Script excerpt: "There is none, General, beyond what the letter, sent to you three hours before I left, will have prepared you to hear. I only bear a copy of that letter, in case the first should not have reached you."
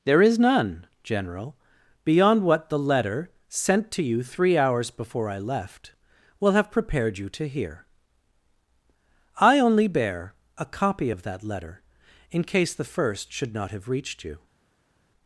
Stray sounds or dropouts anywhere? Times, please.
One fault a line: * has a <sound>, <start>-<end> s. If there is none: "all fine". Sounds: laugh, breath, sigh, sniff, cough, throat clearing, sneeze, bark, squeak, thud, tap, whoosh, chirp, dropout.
all fine